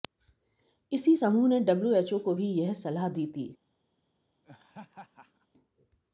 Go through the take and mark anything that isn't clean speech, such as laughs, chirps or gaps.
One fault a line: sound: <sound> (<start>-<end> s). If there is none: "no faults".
sound: laugh (4.4-5.5 s)